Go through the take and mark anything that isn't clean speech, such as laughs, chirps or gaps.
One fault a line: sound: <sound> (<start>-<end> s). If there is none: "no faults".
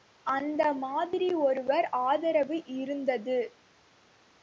no faults